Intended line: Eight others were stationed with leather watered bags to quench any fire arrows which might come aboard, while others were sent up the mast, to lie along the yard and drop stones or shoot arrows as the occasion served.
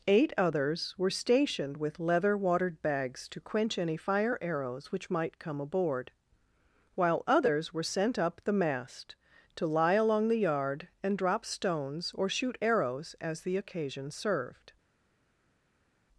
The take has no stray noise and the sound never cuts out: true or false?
true